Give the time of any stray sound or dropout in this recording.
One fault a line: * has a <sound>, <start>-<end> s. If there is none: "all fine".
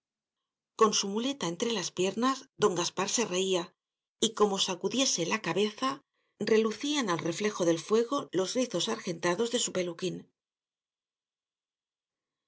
all fine